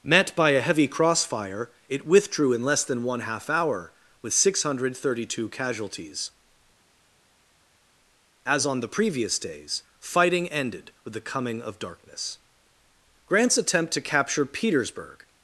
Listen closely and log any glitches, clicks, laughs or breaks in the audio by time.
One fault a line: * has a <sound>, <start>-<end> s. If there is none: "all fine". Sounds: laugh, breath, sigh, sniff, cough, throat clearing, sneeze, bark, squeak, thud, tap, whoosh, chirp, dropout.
all fine